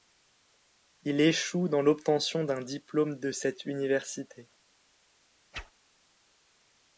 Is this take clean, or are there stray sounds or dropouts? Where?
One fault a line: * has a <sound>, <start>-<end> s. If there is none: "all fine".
* has a whoosh, 5.5-5.7 s